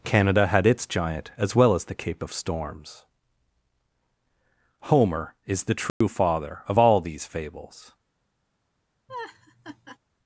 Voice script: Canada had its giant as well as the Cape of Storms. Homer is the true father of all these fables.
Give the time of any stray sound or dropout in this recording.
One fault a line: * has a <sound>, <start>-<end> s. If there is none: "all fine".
* has a dropout, 5.9-6.0 s
* has a laugh, 9.1-10.0 s